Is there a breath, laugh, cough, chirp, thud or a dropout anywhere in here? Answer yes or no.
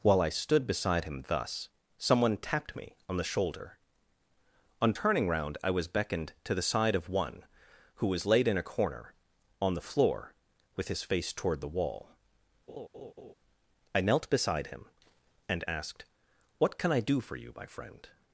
yes